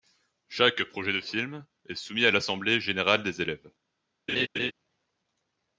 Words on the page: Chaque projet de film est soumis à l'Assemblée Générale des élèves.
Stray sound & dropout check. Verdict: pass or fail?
fail